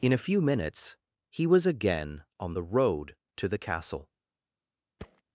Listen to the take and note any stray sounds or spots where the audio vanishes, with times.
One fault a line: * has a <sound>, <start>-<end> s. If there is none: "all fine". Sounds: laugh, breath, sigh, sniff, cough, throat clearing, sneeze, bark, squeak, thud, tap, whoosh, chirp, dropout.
* has a thud, 5.0-5.2 s